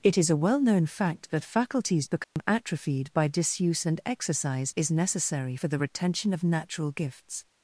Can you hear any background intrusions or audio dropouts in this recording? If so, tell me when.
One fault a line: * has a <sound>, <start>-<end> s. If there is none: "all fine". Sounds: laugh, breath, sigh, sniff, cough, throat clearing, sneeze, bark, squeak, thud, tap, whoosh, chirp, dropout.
* has a dropout, 2.2-2.4 s